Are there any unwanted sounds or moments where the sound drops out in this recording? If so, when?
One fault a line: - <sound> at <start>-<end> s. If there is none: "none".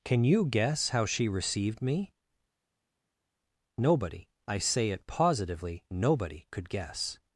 none